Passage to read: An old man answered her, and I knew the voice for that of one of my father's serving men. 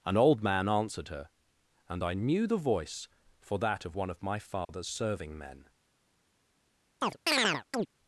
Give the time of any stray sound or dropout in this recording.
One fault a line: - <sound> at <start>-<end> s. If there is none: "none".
- dropout at 4.6-4.7 s
- chirp at 7.0-7.9 s